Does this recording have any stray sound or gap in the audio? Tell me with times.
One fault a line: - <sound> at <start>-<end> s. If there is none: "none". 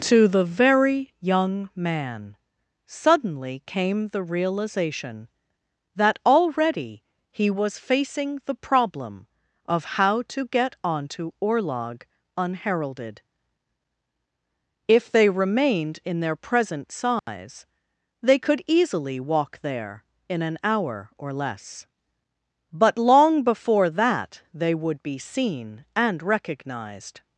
- dropout at 17.2-17.3 s